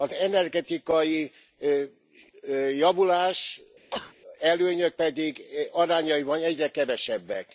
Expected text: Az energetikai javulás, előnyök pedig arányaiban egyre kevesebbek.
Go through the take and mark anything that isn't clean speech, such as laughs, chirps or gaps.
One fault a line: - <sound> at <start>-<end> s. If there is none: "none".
- sneeze at 3.9-4.2 s